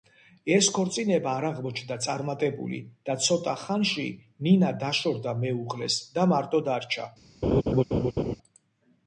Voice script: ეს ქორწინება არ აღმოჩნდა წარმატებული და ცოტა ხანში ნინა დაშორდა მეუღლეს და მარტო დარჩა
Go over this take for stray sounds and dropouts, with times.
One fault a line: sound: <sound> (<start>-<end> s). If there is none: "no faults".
sound: laugh (7.4-8.4 s)